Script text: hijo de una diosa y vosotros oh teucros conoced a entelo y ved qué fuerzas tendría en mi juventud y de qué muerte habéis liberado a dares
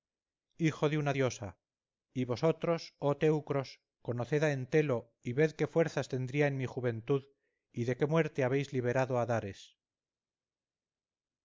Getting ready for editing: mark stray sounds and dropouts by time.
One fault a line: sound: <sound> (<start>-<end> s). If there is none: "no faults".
no faults